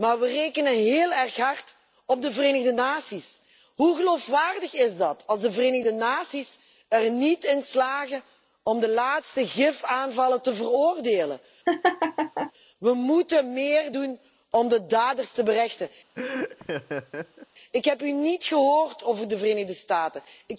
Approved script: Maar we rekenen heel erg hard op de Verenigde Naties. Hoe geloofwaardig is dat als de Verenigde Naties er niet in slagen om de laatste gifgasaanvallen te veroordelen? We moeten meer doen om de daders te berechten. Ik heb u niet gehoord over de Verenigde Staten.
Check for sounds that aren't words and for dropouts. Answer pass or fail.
fail